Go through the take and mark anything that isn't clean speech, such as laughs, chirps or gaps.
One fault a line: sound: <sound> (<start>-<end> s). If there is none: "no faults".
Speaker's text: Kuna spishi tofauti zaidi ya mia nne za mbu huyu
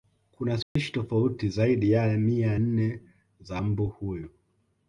sound: dropout (0.6-0.8 s)